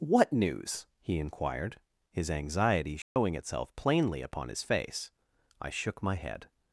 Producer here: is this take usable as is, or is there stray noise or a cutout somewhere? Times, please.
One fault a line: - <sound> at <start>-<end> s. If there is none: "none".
- dropout at 3.0-3.2 s